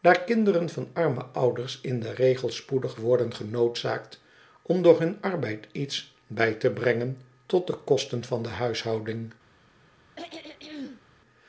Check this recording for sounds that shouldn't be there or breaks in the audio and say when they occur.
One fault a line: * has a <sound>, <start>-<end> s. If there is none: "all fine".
* has a throat clearing, 10.2-11.0 s